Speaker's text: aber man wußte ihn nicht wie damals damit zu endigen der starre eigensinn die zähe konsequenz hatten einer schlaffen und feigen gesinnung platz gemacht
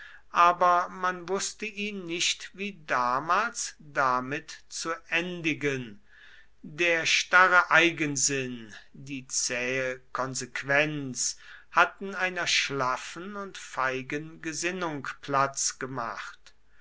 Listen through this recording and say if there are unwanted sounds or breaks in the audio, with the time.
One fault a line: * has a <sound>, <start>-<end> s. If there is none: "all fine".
all fine